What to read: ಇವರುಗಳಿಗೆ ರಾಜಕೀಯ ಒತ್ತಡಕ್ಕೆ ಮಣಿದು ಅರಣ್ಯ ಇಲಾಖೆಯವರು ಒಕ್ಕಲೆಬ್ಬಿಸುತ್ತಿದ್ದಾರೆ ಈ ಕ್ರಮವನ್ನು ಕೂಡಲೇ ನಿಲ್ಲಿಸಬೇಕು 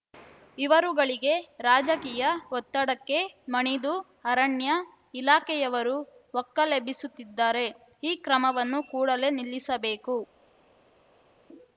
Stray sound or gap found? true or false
false